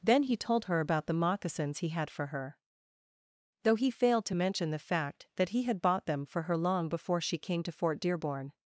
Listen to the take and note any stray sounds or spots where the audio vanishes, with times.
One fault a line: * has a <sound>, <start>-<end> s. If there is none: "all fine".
all fine